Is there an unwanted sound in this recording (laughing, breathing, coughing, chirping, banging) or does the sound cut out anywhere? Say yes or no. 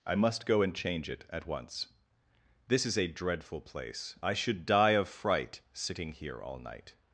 no